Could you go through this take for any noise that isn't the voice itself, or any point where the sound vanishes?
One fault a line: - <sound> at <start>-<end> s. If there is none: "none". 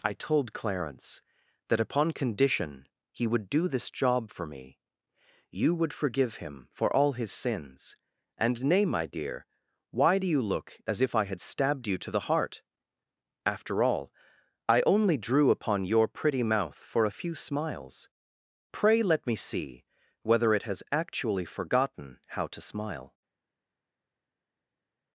none